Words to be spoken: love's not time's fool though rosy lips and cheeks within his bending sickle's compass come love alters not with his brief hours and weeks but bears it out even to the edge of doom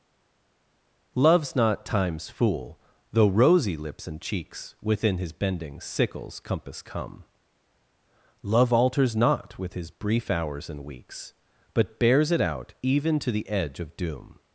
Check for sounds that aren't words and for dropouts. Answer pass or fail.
pass